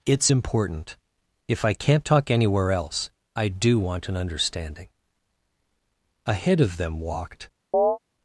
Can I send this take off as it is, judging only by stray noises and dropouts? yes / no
no